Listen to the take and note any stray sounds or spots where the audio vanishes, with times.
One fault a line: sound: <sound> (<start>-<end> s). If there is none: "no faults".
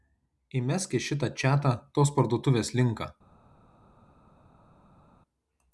no faults